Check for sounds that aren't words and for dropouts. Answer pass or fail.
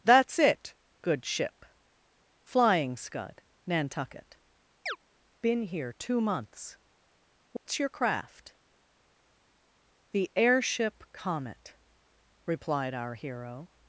fail